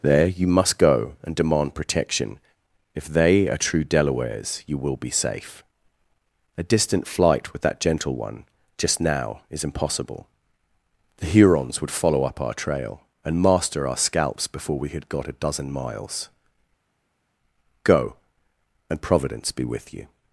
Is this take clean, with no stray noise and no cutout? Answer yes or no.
yes